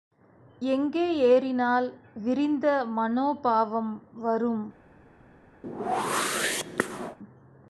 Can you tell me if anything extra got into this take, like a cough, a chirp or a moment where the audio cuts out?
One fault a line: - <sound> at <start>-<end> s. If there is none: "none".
- whoosh at 5.6-7.2 s